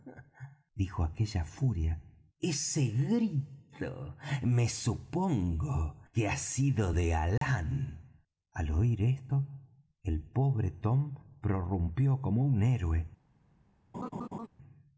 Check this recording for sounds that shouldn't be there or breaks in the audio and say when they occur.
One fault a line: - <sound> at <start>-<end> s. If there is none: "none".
- dropout at 7.4-7.4 s
- laugh at 13.9-14.5 s